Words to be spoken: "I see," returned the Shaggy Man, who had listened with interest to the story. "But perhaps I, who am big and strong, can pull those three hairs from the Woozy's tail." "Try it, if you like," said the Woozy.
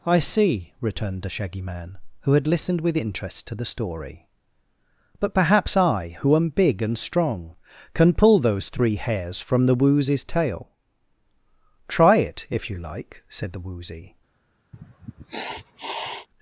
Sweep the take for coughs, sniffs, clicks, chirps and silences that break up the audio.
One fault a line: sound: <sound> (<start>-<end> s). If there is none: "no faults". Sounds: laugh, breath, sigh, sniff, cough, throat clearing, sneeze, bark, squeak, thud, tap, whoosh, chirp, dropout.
sound: sniff (14.7-16.3 s)